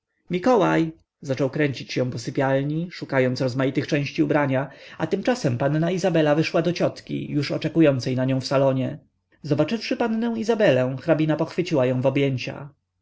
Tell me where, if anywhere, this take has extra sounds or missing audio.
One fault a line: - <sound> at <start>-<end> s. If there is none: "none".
none